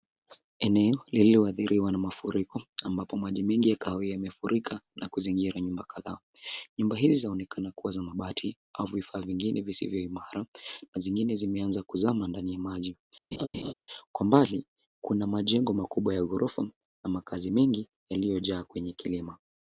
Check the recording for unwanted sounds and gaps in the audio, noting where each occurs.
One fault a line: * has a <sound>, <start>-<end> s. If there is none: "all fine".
* has a laugh, 13.3-13.7 s